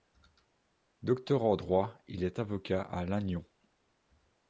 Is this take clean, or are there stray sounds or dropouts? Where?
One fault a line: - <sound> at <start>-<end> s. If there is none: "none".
none